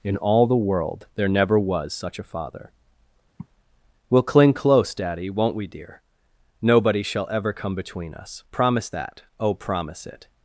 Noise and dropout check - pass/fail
fail